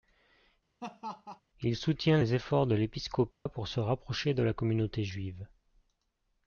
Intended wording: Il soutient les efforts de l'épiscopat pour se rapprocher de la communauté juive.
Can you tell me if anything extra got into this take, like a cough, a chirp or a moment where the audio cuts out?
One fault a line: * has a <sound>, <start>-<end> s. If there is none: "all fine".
* has a laugh, 0.8-1.4 s
* has a dropout, 3.3-3.5 s